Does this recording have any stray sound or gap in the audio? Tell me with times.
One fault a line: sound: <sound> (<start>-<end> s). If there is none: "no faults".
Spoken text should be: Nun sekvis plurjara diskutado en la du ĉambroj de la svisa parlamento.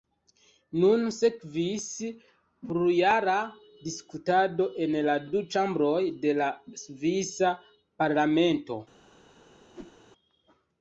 sound: whoosh (9.7-10.0 s)